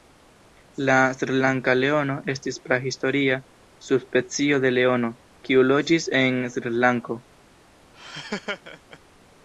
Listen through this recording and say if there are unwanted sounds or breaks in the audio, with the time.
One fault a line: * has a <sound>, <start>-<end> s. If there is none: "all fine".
* has a laugh, 7.9-9.0 s